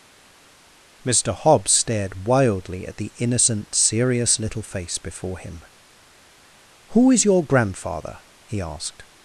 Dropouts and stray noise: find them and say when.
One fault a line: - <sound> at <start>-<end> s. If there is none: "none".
none